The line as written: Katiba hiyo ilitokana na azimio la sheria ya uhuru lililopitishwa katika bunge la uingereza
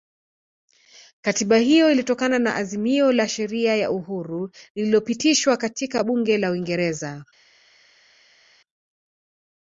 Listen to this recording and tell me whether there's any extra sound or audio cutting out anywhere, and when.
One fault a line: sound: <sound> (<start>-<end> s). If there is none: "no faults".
no faults